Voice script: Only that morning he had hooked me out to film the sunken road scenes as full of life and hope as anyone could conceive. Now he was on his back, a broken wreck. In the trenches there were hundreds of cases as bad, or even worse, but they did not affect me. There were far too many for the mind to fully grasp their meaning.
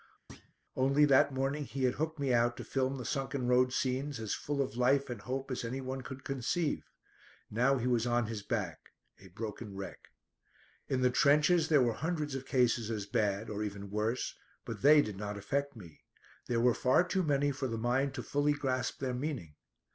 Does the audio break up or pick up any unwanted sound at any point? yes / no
yes